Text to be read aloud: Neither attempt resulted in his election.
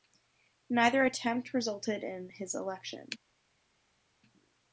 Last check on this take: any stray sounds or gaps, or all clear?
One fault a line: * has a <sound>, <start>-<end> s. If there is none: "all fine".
all fine